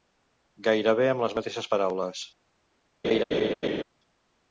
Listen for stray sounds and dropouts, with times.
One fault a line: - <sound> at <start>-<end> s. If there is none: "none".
- laugh at 3.0-3.8 s